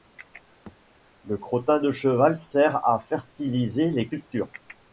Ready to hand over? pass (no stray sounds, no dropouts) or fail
fail